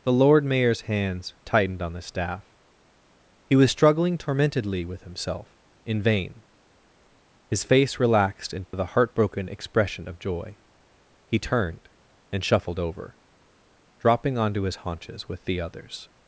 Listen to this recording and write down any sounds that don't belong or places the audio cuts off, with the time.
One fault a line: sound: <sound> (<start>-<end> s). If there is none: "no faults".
sound: dropout (8.7-8.7 s)